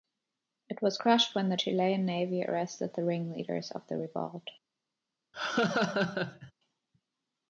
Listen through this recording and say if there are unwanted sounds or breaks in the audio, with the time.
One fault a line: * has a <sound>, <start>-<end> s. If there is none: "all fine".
* has a laugh, 5.3-6.5 s